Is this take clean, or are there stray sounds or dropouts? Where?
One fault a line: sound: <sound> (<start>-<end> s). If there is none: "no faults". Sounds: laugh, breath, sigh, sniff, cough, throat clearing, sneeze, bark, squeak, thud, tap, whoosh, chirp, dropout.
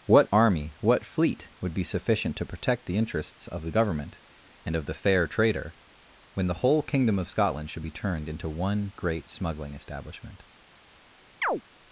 sound: chirp (11.4-11.6 s)